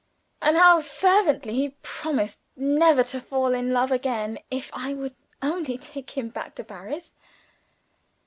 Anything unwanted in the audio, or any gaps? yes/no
no